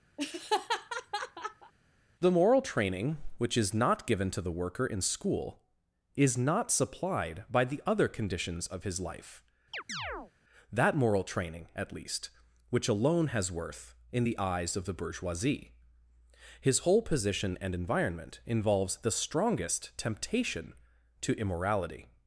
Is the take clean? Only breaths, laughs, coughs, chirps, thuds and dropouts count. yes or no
no